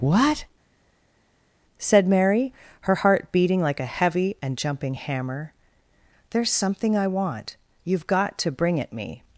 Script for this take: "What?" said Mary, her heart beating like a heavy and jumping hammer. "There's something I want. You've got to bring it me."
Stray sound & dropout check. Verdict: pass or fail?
pass